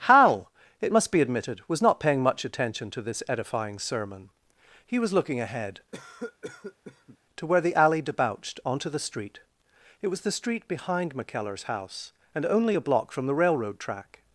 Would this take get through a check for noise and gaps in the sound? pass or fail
fail